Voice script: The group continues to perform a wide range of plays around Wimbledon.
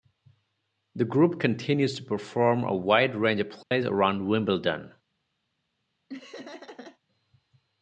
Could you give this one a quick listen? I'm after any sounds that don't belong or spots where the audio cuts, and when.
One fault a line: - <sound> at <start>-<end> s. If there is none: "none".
- dropout at 3.6-3.7 s
- laugh at 6.1-7.0 s